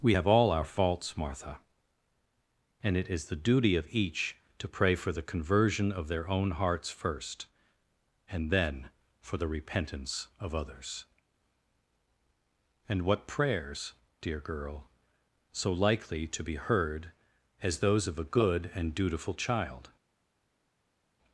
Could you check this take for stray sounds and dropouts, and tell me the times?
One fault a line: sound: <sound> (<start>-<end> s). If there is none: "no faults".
no faults